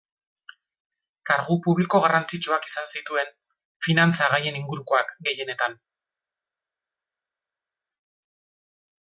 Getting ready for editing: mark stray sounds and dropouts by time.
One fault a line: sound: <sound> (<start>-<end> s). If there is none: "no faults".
no faults